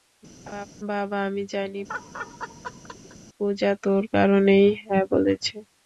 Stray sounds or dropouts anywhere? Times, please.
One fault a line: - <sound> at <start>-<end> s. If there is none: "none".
- laugh at 0.5-0.7 s
- laugh at 1.9-3.2 s